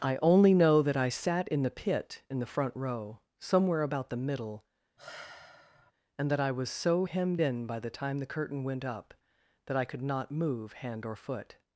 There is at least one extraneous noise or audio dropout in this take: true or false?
true